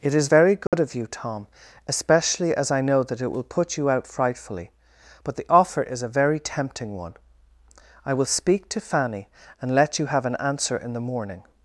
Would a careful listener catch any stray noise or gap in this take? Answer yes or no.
yes